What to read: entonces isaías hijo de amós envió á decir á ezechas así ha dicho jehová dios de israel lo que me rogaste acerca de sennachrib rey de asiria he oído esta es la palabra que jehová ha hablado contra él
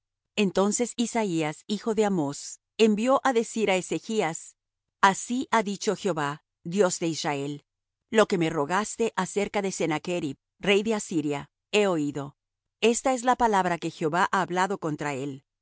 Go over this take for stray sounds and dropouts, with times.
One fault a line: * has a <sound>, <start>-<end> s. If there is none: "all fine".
all fine